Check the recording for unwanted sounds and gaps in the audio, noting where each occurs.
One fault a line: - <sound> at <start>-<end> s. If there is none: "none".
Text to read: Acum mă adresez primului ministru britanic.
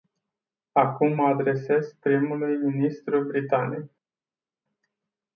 none